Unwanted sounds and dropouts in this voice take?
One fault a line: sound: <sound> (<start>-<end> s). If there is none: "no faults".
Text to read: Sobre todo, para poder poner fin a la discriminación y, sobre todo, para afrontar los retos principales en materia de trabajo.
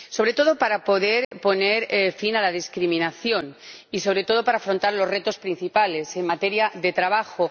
sound: dropout (1.2-1.3 s)